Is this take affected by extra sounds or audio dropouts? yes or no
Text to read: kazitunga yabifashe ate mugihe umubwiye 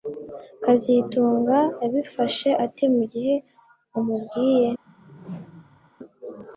yes